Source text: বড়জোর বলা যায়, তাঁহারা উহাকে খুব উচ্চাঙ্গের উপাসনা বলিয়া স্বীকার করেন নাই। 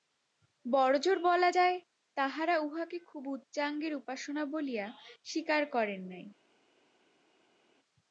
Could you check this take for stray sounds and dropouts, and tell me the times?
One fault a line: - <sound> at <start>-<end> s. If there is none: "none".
none